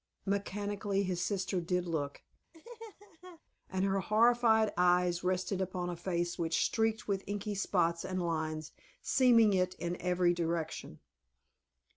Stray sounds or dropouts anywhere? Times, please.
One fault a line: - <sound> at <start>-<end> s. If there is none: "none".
- laugh at 2.5-3.4 s